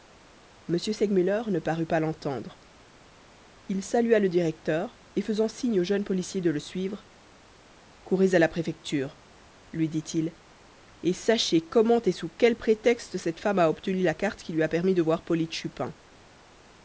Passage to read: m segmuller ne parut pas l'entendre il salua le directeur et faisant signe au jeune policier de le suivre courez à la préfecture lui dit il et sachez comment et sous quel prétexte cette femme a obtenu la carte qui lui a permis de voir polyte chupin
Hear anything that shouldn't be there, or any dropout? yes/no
no